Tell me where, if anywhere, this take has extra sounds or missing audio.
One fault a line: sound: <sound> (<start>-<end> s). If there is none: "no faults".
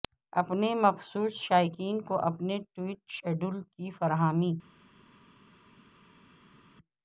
no faults